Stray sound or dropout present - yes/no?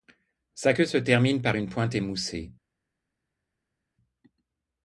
no